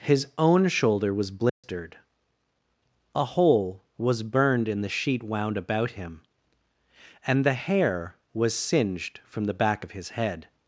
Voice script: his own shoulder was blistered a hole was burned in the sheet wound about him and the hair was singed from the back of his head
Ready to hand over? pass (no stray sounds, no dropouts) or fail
fail